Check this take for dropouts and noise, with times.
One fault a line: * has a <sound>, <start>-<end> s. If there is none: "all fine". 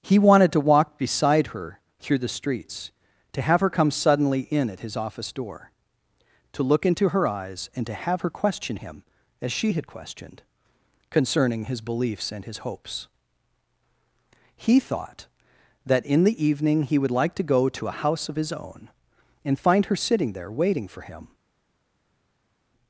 all fine